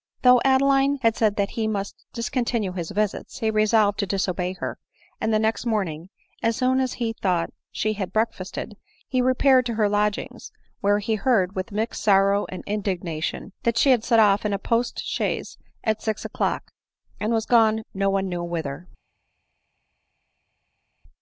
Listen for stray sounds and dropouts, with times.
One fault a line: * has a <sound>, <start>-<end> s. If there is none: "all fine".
all fine